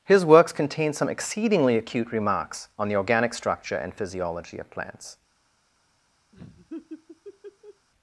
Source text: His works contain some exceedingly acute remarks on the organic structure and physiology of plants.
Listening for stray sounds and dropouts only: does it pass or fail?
fail